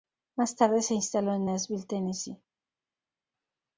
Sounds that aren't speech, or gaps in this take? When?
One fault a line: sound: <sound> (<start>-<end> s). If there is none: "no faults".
no faults